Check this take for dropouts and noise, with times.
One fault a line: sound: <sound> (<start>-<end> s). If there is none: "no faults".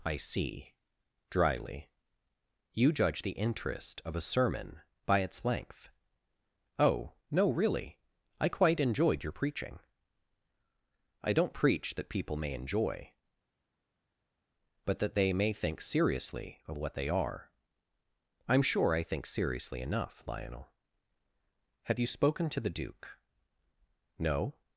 no faults